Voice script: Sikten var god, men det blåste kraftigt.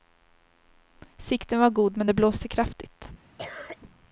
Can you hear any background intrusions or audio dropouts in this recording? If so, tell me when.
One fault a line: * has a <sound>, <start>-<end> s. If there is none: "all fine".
* has a cough, 3.4-3.8 s